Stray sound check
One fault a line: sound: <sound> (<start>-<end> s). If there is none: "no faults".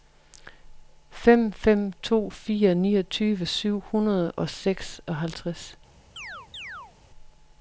sound: chirp (6.2-6.9 s)